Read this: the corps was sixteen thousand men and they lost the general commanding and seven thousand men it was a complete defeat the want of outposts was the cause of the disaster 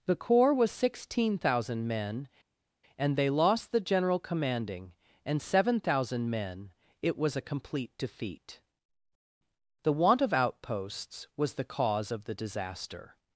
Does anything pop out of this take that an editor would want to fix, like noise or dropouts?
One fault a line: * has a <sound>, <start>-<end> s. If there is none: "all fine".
all fine